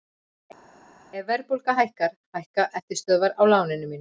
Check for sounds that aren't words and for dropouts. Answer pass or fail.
pass